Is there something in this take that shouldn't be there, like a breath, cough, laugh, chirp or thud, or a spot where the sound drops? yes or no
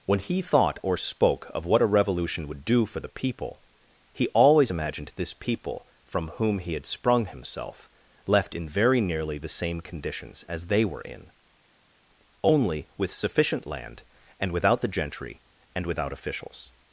no